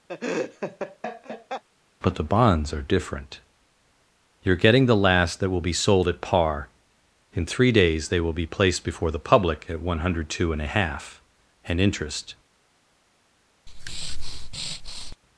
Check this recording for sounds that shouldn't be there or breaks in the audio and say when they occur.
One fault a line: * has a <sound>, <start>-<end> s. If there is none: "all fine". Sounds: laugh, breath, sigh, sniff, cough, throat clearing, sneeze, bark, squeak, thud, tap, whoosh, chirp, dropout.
* has a laugh, 0.1-1.6 s
* has a breath, 13.7-15.2 s